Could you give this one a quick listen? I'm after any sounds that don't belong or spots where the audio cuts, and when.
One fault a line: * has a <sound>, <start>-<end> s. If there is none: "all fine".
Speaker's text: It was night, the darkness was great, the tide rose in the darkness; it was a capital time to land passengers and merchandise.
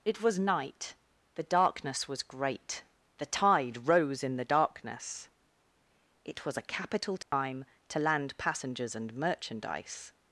* has a dropout, 7.2-7.3 s